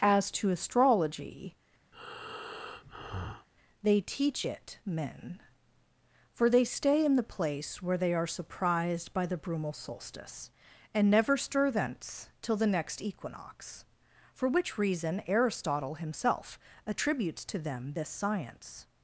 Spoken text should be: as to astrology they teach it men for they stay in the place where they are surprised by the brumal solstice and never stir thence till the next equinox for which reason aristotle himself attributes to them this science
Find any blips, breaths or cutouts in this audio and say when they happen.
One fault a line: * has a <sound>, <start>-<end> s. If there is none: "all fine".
* has a breath, 1.9-3.5 s